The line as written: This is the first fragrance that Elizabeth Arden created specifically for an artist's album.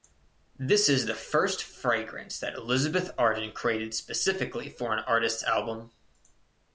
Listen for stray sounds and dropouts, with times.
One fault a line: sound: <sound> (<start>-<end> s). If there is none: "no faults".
no faults